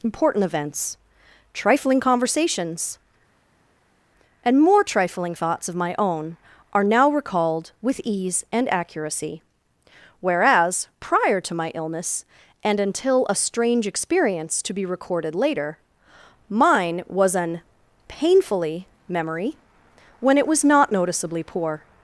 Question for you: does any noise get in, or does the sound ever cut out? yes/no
no